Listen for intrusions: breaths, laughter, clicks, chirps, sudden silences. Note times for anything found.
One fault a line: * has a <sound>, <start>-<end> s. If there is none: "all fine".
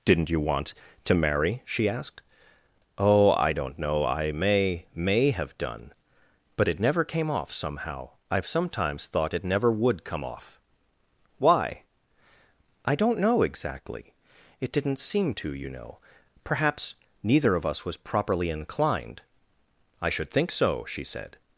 all fine